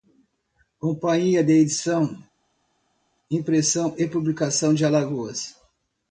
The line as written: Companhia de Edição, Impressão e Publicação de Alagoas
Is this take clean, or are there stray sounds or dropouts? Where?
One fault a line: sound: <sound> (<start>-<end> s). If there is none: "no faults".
no faults